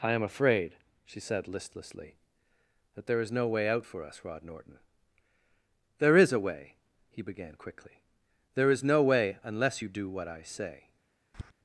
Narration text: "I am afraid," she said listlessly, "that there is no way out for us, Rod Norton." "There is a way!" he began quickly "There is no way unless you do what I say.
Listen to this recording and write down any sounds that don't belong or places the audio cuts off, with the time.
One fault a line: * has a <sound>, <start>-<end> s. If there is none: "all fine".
* has a tap, 11.3-11.5 s